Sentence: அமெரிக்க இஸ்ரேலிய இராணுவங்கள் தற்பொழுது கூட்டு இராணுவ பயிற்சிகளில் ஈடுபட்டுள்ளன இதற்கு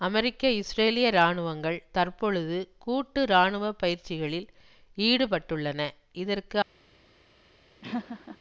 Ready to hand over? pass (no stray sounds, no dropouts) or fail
fail